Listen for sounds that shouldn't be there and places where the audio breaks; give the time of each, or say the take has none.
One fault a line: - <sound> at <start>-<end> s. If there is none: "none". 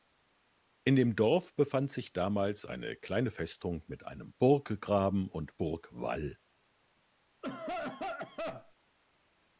- cough at 7.4-8.7 s